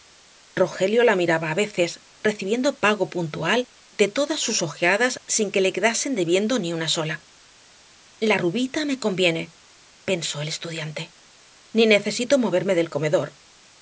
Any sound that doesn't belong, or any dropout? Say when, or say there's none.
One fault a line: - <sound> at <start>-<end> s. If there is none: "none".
none